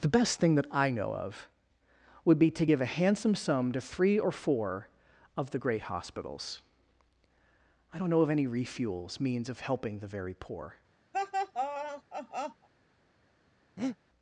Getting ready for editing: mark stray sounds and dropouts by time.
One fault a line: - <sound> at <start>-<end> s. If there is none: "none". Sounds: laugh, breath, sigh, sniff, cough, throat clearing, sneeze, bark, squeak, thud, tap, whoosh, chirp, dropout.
- laugh at 11.1-12.7 s
- breath at 13.8-14.0 s